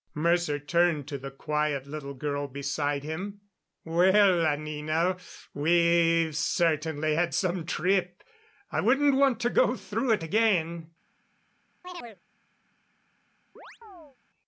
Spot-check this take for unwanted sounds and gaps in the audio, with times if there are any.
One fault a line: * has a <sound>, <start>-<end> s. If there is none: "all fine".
* has a chirp, 11.8-12.2 s
* has a chirp, 13.6-14.2 s